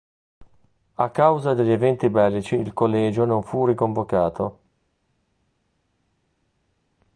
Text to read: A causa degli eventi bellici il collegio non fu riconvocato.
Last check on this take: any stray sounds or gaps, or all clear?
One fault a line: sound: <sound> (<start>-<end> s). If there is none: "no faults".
no faults